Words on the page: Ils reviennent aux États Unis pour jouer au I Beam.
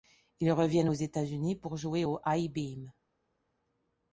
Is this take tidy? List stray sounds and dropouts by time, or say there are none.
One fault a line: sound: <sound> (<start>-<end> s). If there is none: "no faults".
no faults